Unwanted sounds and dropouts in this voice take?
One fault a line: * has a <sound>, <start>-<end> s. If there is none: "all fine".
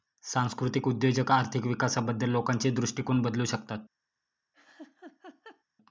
* has a laugh, 4.5-5.6 s